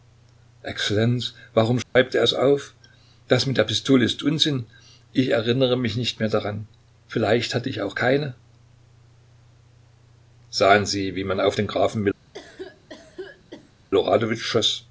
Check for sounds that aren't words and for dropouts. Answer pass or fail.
fail